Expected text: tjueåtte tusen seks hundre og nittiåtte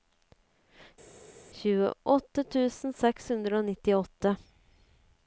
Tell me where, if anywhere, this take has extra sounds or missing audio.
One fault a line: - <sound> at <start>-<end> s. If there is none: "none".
none